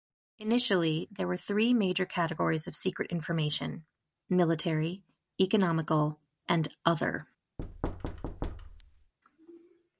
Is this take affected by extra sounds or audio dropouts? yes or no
yes